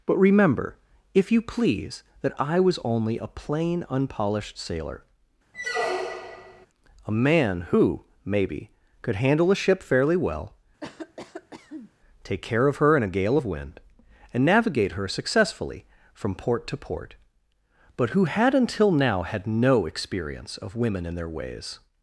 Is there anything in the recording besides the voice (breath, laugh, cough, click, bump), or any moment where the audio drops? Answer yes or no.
yes